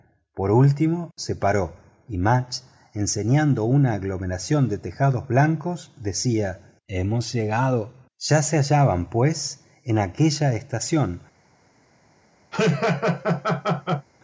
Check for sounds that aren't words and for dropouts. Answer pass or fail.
fail